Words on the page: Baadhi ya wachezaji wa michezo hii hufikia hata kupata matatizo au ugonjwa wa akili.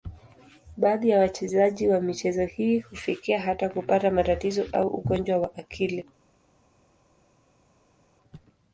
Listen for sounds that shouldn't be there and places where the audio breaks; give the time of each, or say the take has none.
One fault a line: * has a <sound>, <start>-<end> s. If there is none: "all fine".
all fine